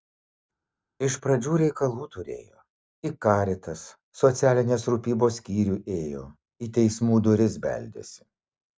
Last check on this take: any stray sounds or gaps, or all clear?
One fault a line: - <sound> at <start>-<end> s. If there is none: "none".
none